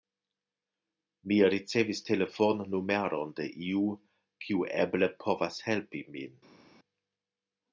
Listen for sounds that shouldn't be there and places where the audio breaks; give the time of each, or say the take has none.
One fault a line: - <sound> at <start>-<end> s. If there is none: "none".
none